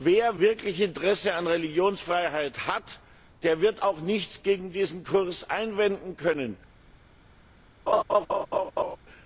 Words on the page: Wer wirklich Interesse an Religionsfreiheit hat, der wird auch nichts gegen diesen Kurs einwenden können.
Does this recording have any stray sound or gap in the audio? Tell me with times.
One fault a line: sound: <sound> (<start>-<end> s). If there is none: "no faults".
sound: laugh (7.9-9.0 s)